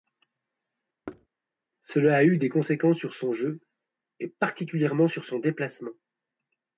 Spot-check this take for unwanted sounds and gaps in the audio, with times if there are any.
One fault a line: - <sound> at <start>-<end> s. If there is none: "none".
- thud at 1.1-1.3 s